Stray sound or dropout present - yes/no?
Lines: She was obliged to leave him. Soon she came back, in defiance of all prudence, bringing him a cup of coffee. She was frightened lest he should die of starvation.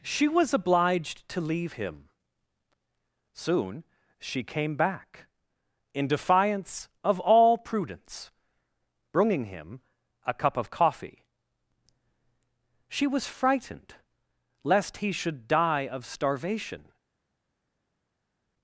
no